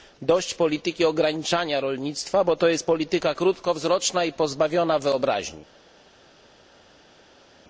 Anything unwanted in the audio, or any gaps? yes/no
no